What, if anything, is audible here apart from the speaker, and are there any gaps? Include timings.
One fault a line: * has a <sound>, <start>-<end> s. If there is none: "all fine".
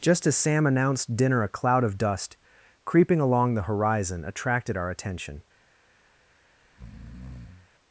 * has a breath, 6.6-7.7 s